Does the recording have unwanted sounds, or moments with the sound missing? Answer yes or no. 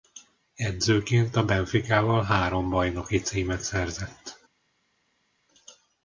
no